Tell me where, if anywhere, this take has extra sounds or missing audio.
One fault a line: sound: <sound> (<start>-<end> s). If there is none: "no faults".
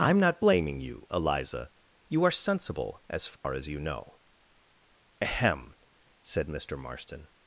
sound: dropout (3.4-3.4 s)